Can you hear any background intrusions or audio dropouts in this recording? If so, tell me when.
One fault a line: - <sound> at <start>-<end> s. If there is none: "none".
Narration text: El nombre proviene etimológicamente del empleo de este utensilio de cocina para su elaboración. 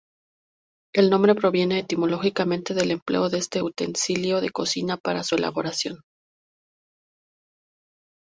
none